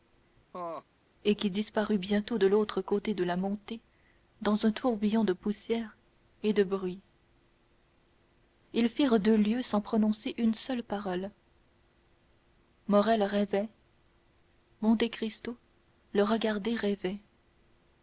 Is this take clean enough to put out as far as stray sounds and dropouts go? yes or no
no